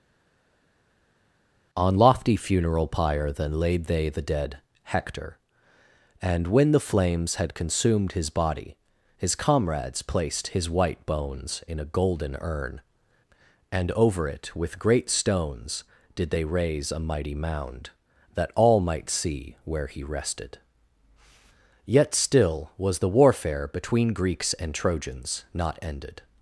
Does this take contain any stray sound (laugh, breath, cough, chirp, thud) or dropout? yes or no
no